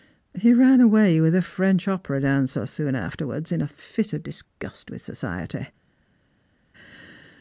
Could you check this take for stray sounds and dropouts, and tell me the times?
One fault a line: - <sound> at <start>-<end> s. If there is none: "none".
none